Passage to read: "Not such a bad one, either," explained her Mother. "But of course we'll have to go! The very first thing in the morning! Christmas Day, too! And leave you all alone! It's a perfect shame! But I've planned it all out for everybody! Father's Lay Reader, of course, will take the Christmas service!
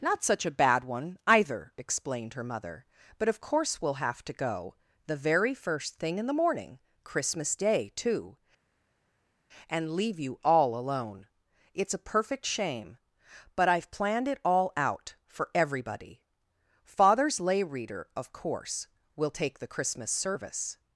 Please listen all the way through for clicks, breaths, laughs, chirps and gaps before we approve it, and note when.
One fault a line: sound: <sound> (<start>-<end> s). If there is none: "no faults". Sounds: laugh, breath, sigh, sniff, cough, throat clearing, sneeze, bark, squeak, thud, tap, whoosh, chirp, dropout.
no faults